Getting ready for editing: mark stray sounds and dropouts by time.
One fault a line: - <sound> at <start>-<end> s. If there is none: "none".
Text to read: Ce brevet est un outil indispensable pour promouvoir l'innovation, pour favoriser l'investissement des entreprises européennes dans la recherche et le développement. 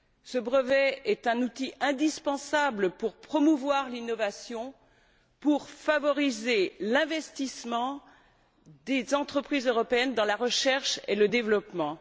none